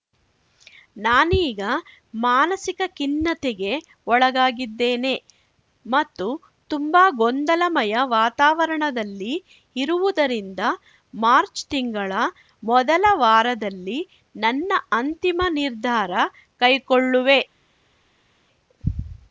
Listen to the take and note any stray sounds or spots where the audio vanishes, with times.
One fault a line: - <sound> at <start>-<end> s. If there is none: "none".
none